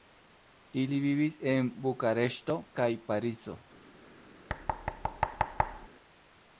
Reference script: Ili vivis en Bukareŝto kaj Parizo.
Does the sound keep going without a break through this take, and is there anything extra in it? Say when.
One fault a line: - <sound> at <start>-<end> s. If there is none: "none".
- thud at 4.5-5.9 s